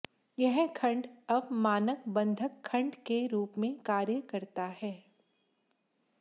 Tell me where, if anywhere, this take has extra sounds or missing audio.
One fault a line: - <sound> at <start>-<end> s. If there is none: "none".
none